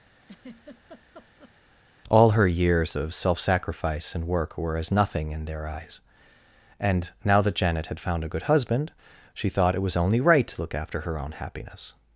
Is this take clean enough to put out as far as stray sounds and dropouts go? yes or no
no